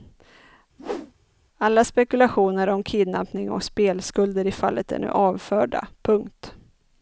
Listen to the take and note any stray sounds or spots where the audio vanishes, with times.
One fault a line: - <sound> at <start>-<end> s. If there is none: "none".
- whoosh at 0.8-1.1 s